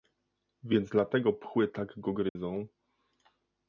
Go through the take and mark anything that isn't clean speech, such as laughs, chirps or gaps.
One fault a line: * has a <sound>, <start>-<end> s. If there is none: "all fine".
* has a dropout, 2.3-2.4 s